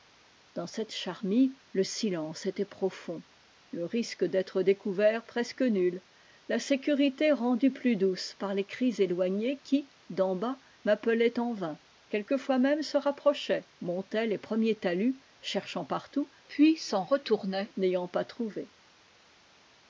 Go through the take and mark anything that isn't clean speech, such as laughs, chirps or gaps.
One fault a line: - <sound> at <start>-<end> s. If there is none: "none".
none